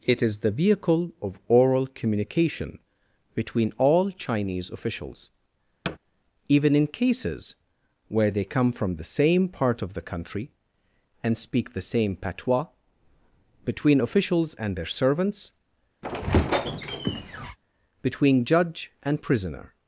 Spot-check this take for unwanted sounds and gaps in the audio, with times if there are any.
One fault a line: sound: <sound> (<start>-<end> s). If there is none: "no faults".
sound: thud (5.8-6.0 s)
sound: squeak (16.0-17.6 s)